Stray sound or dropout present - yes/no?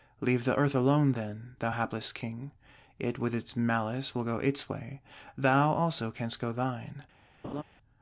yes